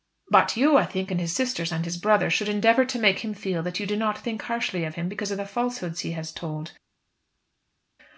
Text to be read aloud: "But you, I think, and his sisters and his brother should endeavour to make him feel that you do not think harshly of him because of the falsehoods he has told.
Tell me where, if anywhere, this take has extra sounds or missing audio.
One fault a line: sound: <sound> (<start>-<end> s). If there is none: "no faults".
no faults